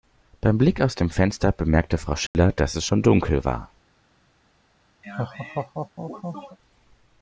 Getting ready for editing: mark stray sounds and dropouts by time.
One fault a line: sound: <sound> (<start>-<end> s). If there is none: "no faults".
sound: dropout (2.3-2.3 s)
sound: laugh (5.0-6.6 s)